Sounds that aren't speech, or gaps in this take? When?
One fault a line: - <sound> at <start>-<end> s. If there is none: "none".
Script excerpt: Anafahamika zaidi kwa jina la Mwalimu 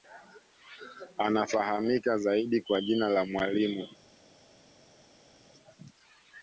none